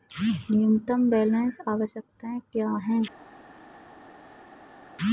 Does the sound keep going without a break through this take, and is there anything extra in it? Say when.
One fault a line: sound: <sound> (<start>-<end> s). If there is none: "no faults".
no faults